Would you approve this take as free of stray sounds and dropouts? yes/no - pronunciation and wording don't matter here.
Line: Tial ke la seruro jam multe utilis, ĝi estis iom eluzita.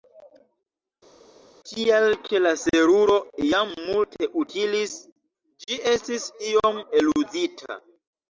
yes